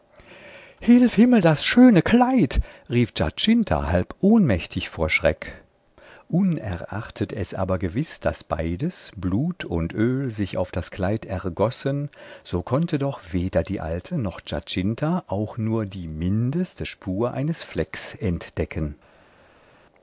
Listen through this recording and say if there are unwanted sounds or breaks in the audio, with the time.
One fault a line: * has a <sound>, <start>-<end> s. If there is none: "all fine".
all fine